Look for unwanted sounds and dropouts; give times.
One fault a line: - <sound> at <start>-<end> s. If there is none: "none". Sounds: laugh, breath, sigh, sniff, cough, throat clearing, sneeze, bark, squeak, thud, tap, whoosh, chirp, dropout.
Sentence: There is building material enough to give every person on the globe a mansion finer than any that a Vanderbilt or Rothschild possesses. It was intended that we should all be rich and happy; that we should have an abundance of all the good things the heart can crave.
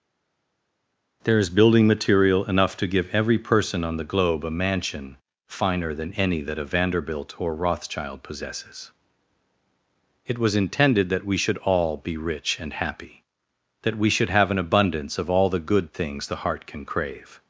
none